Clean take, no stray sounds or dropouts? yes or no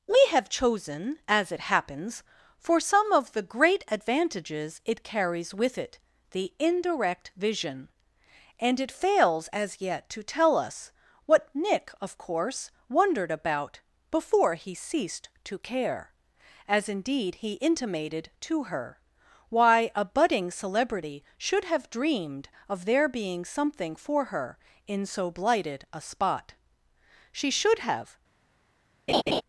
no